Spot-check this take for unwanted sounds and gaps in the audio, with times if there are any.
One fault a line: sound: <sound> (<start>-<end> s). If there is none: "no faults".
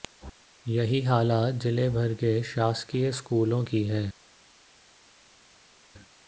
no faults